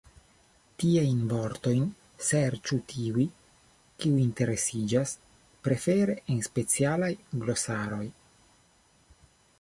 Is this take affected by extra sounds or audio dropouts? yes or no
no